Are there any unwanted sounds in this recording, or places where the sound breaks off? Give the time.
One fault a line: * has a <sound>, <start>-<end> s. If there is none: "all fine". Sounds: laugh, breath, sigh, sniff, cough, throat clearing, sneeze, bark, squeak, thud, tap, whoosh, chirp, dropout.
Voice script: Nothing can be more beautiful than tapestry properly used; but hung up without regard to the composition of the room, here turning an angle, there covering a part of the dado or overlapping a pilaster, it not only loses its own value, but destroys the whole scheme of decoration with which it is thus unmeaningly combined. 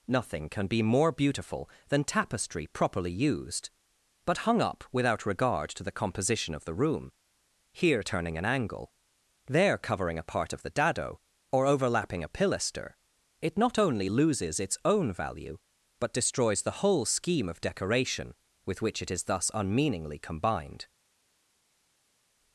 all fine